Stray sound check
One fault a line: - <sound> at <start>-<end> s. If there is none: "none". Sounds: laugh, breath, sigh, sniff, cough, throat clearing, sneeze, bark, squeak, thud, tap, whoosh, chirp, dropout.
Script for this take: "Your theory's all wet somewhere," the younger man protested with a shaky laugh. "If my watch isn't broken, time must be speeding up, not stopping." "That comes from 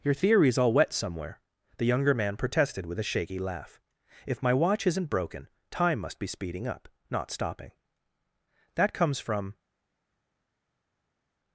none